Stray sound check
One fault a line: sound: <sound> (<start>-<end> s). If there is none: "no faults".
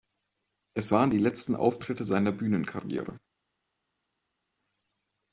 no faults